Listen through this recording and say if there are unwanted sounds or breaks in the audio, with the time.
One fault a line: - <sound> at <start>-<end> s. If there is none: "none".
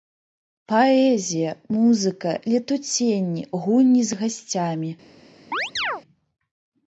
- chirp at 5.5-6.0 s